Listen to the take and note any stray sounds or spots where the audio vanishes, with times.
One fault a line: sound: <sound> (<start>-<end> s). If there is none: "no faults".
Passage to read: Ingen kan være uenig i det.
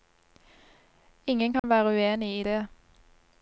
sound: dropout (1.6-1.6 s)